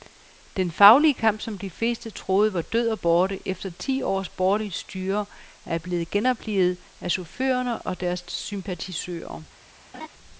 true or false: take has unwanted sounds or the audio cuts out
true